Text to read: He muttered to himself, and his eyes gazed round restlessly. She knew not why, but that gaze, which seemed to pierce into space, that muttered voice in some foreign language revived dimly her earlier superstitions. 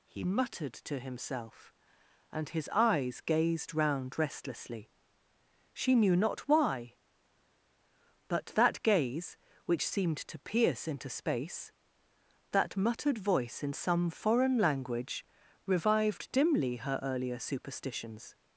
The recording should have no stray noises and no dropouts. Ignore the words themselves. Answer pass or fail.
pass